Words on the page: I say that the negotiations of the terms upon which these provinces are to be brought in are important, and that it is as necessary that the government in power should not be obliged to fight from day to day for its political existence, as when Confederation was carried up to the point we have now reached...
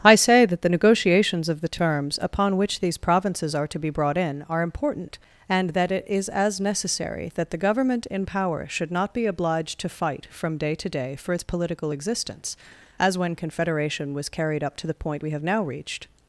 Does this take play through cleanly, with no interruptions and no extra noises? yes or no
yes